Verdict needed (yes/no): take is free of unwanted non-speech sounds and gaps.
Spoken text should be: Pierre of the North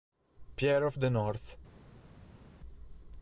yes